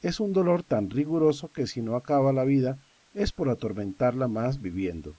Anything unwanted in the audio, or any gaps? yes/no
no